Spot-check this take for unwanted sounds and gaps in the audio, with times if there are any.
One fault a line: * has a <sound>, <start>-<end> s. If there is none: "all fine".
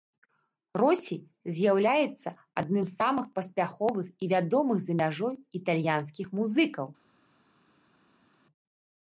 all fine